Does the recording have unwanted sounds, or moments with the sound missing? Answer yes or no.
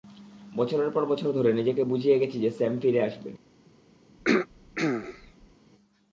yes